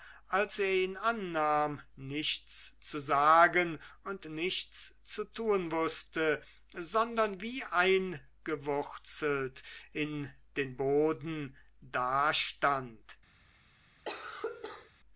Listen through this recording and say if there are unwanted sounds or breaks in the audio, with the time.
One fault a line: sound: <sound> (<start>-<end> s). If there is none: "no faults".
sound: cough (14.0-14.9 s)